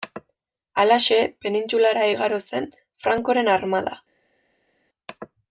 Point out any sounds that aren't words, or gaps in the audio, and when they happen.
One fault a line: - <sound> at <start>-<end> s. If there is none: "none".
none